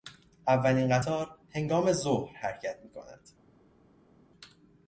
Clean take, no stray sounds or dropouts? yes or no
yes